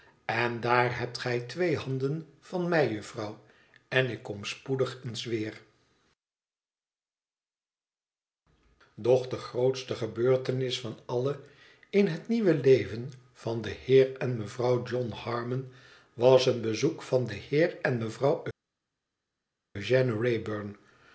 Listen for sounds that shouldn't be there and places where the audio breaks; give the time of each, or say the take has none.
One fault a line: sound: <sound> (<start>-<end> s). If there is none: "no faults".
no faults